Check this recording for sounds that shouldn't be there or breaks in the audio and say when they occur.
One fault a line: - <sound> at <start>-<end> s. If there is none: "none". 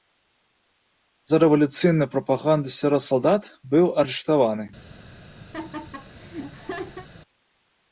- laugh at 5.5-7.1 s